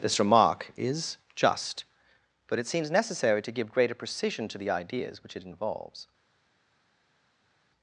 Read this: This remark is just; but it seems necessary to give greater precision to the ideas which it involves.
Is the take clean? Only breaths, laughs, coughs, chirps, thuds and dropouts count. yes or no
yes